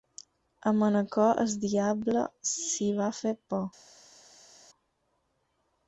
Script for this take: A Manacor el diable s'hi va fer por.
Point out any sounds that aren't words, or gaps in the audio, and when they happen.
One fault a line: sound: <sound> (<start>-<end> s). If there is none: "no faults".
no faults